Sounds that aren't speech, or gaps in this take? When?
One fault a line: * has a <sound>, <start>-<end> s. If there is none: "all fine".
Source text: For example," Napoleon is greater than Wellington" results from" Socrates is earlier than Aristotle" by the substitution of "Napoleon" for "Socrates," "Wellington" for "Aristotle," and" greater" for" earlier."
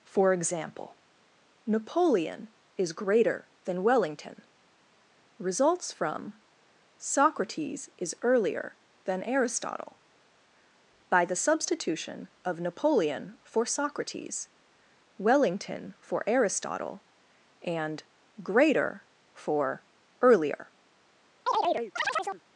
* has a chirp, 21.5-22.4 s